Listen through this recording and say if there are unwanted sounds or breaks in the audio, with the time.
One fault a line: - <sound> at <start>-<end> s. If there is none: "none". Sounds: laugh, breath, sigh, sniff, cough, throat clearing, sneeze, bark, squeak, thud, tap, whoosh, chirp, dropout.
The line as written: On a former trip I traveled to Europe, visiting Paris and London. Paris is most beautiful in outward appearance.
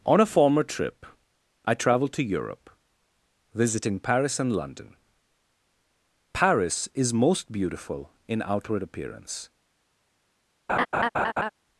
- laugh at 10.7-11.5 s